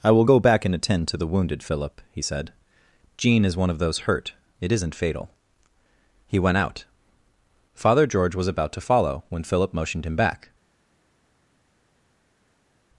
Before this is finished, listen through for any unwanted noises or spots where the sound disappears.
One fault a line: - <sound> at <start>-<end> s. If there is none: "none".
none